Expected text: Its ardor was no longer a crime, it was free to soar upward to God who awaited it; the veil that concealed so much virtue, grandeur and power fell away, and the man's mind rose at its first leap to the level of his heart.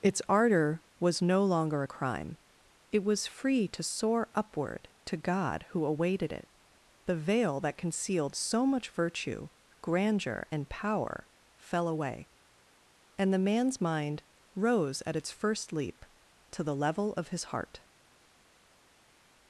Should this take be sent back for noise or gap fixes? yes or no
no